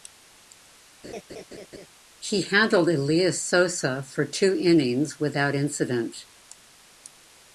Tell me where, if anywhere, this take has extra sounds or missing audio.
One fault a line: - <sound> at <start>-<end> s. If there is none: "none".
- laugh at 1.0-1.9 s